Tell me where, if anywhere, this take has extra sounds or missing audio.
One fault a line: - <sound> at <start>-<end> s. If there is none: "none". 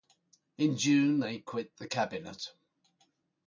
none